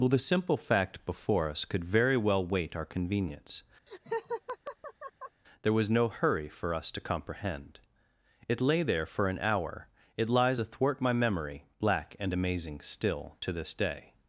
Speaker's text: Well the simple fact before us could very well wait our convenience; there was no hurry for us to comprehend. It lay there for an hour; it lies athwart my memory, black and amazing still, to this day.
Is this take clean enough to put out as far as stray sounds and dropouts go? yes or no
no